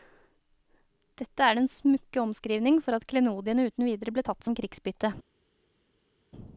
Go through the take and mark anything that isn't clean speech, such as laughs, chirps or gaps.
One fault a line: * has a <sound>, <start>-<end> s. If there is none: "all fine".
all fine